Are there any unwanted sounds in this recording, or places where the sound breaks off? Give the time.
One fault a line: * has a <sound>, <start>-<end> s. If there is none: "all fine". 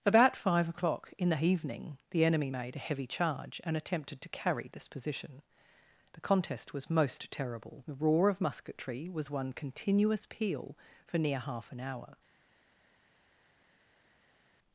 all fine